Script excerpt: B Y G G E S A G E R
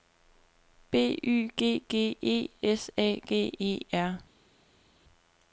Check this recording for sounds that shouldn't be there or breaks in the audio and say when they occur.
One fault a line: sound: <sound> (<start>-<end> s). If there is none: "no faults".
no faults